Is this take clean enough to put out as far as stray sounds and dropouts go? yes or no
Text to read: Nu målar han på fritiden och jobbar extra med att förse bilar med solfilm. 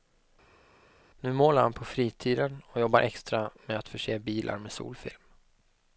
yes